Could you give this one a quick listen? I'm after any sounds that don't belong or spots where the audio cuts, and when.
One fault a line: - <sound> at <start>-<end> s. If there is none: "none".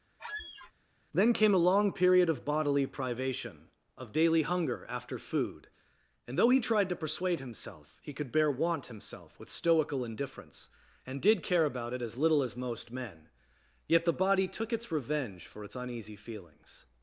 - squeak at 0.2-0.7 s